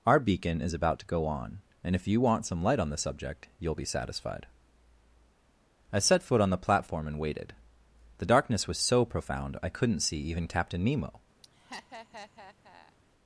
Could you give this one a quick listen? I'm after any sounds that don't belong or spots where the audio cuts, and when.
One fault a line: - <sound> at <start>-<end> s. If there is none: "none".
- laugh at 11.4-13.0 s